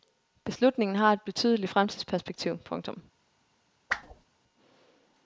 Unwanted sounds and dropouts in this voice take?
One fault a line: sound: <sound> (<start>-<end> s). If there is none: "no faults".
sound: whoosh (3.9-4.3 s)